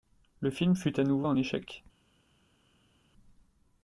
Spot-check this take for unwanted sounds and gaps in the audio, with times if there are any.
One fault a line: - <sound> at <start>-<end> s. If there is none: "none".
none